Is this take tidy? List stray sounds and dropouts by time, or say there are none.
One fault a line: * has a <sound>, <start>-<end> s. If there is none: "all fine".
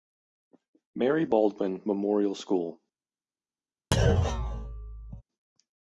* has a thud, 3.9-5.2 s